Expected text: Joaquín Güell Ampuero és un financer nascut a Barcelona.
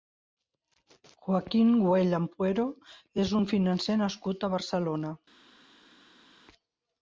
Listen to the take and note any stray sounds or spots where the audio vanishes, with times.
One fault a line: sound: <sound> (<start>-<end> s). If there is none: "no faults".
no faults